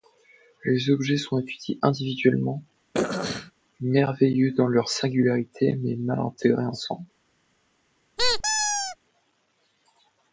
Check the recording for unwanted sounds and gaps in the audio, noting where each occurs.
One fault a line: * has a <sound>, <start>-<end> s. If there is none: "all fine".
* has a throat clearing, 2.9-3.5 s
* has a squeak, 8.2-9.0 s